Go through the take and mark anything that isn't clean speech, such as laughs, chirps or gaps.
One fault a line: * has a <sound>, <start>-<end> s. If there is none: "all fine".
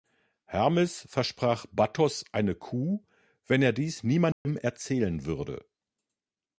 * has a dropout, 4.3-4.5 s